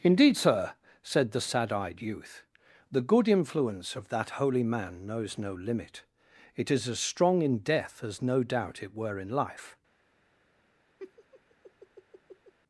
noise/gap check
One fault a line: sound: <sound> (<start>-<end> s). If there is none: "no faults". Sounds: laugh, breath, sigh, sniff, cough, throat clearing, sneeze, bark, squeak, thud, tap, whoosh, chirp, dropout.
sound: laugh (11.0-12.5 s)